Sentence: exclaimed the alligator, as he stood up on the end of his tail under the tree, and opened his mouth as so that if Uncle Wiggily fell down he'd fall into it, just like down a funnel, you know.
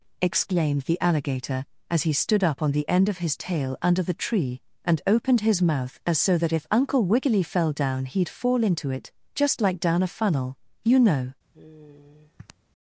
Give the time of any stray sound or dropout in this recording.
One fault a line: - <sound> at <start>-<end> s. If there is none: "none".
- sigh at 11.5-12.5 s